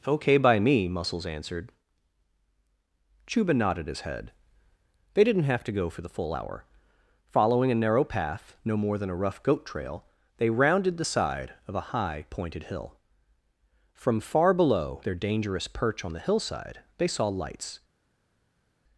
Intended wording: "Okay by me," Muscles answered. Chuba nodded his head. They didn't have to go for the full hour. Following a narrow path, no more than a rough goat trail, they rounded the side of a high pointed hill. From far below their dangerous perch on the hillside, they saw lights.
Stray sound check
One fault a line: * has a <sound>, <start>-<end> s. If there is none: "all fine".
all fine